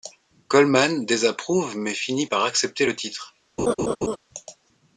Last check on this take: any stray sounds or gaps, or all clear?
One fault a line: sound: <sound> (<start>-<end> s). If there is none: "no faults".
sound: laugh (3.6-4.2 s)